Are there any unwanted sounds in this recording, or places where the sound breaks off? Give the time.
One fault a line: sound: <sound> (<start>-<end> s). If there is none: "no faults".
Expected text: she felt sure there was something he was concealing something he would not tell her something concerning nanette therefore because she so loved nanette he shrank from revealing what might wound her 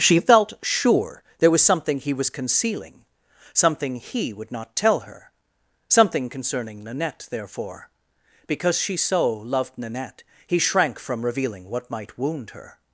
no faults